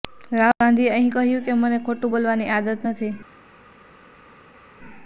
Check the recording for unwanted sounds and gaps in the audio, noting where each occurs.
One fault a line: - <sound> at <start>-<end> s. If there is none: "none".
none